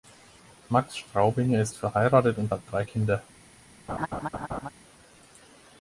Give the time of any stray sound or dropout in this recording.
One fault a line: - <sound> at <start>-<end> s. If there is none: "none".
- laugh at 3.9-4.7 s